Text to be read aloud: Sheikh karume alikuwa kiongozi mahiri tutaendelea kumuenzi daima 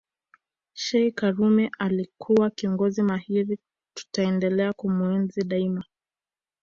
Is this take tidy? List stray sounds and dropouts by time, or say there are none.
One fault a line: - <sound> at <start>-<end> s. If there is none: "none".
none